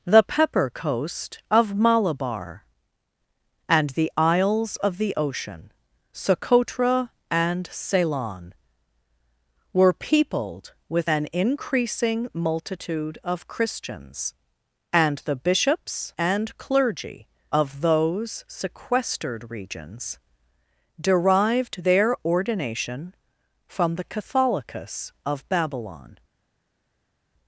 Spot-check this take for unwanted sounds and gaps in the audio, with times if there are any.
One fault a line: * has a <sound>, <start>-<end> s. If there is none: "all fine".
all fine